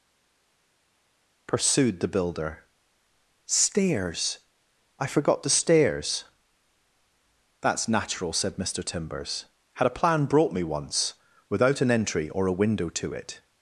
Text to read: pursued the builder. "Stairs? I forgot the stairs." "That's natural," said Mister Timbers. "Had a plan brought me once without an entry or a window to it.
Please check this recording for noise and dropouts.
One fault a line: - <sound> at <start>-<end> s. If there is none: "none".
none